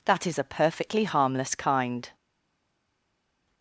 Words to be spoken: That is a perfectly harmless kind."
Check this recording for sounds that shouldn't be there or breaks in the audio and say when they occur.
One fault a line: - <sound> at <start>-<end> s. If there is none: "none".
none